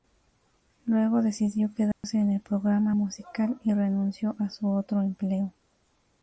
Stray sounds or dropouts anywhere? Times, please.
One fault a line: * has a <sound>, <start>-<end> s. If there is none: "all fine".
* has a dropout, 1.9-2.0 s